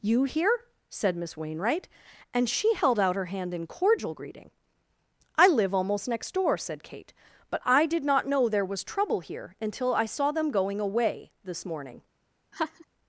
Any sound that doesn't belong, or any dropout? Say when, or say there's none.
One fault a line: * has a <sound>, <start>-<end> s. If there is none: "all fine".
* has a laugh, 12.5-12.9 s